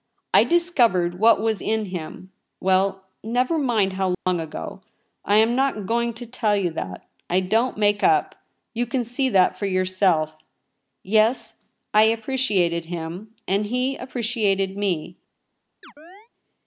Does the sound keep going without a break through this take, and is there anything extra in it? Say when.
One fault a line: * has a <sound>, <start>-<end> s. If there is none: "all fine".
* has a dropout, 4.1-4.3 s
* has a chirp, 15.8-16.3 s